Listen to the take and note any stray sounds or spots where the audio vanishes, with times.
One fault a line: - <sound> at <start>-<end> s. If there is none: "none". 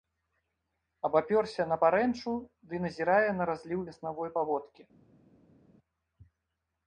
none